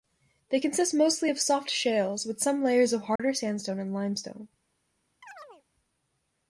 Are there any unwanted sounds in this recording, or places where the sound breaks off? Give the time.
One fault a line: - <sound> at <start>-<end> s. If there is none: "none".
- dropout at 3.2-3.2 s
- chirp at 5.2-5.6 s